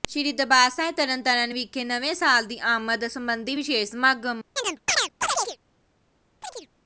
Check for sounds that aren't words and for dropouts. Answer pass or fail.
fail